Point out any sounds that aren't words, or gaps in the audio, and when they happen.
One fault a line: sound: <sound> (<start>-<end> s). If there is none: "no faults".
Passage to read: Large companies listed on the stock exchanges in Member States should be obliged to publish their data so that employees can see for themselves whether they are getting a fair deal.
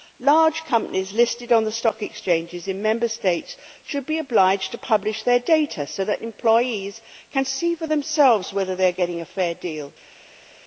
no faults